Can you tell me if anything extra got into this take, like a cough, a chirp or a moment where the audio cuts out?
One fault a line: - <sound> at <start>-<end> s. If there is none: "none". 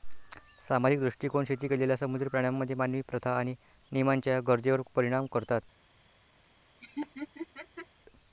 - laugh at 6.8-7.9 s